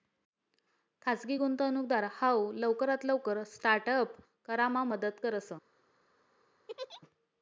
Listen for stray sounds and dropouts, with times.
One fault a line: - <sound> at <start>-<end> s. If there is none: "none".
- laugh at 6.7-7.0 s